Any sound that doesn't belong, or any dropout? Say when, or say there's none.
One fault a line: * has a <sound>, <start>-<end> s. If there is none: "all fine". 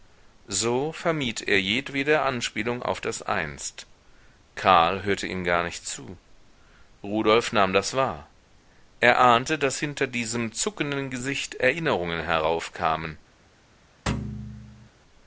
* has a thud, 14.1-14.9 s